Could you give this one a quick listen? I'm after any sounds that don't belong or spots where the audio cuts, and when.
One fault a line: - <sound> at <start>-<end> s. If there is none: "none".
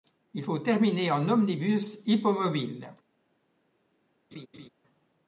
- laugh at 4.3-4.7 s